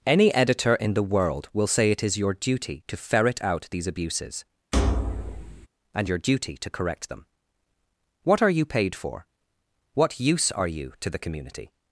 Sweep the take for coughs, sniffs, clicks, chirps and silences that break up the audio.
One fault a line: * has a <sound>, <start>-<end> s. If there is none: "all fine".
* has a thud, 4.7-5.7 s